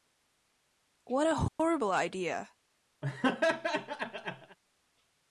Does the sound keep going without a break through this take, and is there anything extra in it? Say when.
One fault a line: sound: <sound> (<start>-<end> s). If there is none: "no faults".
sound: dropout (1.5-1.6 s)
sound: laugh (3.0-4.6 s)